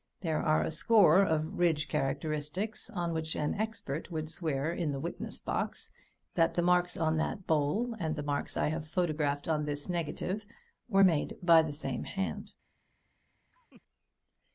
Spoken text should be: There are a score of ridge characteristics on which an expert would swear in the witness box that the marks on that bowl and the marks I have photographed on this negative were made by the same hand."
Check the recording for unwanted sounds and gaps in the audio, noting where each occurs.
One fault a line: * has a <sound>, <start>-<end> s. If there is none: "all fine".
* has a laugh, 13.5-13.8 s